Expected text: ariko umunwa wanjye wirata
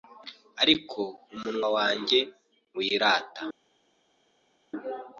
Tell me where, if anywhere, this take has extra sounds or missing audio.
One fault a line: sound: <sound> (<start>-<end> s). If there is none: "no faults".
no faults